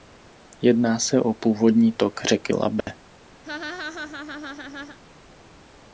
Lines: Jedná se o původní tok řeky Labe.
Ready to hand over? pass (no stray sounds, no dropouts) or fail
fail